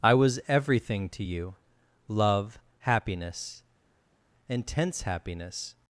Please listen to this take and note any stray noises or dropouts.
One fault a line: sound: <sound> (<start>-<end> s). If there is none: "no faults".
no faults